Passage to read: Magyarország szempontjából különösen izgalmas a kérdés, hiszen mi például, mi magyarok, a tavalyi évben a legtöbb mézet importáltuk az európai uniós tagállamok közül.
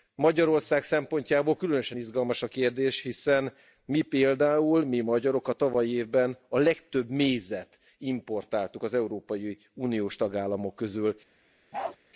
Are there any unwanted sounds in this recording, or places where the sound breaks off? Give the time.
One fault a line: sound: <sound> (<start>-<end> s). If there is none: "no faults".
sound: bark (11.7-12.0 s)